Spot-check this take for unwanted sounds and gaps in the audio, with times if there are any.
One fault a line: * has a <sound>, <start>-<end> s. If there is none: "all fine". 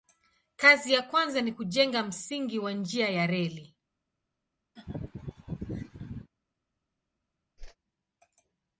* has a laugh, 4.8-6.3 s
* has a whoosh, 7.6-7.8 s